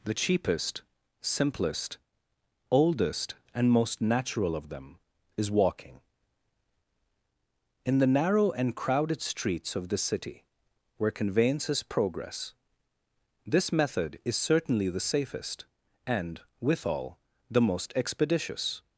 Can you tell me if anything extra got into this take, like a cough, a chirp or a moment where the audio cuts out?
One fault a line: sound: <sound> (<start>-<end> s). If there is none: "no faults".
no faults